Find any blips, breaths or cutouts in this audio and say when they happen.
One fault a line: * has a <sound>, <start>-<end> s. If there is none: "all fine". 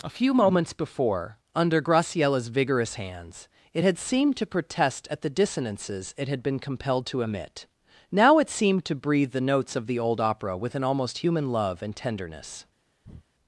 * has a breath, 13.0-13.3 s